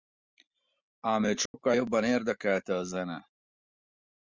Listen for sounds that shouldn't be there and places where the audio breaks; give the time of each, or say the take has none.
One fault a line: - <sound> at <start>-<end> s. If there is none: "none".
- dropout at 1.5-1.5 s